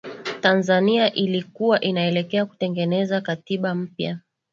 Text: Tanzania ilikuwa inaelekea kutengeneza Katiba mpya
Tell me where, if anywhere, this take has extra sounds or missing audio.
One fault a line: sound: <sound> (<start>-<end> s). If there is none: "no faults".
no faults